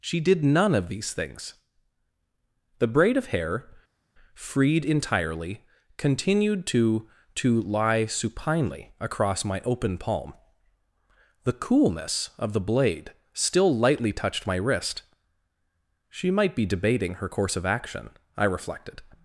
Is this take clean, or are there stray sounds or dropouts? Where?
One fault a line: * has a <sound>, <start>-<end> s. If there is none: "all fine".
all fine